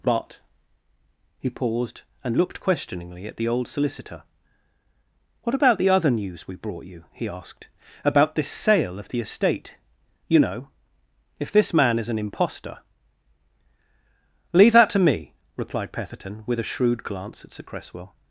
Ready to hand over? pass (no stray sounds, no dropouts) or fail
pass